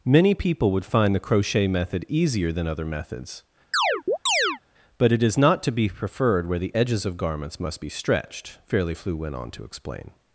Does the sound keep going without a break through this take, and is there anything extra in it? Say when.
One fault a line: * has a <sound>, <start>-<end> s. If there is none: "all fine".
* has a chirp, 3.7-4.6 s